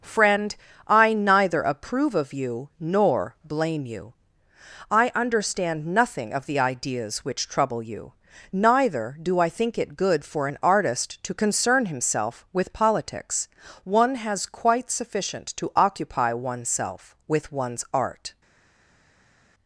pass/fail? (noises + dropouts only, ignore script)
pass